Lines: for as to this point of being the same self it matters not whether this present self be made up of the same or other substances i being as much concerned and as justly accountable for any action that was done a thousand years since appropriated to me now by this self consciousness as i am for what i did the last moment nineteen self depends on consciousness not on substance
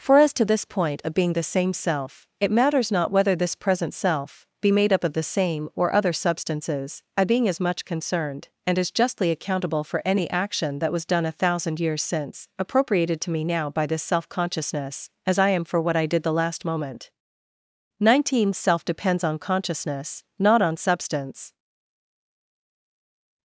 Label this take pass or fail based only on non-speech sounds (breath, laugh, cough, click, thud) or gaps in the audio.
pass